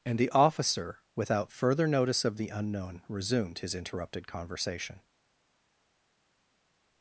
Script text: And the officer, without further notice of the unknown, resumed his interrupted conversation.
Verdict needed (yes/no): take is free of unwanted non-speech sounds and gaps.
yes